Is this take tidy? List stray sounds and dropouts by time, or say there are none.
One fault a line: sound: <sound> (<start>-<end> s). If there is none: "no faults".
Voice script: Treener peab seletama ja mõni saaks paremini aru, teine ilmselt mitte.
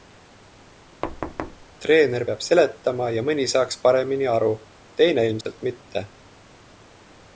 sound: thud (1.0-1.7 s)
sound: dropout (5.4-5.5 s)